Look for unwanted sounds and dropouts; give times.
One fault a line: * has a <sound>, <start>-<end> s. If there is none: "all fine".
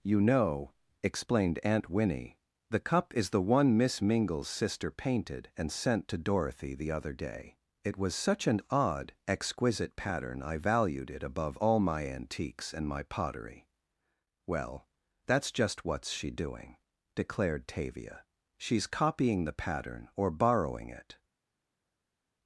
all fine